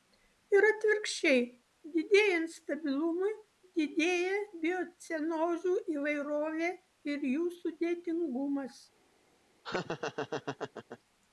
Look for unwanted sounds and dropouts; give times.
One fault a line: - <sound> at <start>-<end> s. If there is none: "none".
- laugh at 9.6-11.0 s